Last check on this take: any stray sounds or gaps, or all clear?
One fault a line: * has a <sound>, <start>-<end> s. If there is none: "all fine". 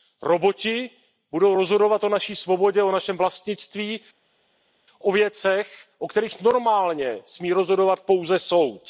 all fine